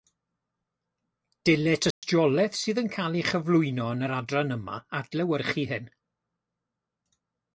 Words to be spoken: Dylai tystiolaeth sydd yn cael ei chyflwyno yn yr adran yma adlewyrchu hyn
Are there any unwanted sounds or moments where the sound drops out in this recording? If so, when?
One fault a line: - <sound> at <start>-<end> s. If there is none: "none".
- dropout at 1.9-2.0 s